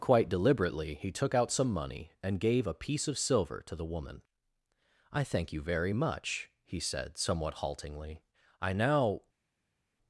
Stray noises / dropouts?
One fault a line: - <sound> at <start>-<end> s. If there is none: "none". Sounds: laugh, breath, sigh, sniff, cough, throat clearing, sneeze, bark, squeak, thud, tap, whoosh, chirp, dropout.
none